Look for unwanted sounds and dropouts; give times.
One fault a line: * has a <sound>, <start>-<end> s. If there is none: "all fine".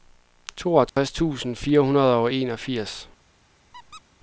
* has a dropout, 0.9-1.0 s
* has a squeak, 3.7-4.0 s